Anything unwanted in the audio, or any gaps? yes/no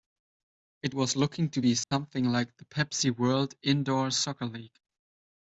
yes